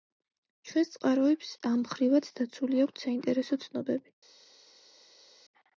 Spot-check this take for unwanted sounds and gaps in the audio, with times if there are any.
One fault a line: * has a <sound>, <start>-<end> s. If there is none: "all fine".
all fine